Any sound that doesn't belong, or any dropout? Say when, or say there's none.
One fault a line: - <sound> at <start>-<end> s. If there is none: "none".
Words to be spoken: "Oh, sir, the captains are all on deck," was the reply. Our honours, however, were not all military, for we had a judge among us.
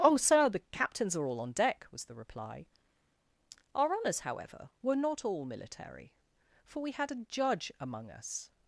none